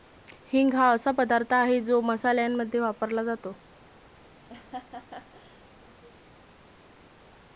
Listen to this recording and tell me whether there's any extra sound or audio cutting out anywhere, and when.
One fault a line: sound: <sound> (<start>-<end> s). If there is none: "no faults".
sound: laugh (4.5-5.6 s)